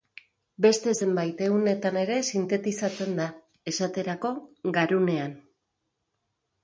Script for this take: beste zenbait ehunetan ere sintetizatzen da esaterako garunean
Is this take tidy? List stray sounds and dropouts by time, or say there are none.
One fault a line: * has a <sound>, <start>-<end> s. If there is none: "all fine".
all fine